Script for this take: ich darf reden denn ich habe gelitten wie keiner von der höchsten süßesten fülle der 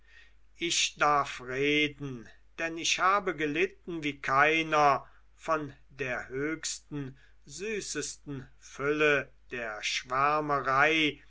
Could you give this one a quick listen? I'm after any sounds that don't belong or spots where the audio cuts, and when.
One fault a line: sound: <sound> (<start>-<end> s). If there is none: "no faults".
no faults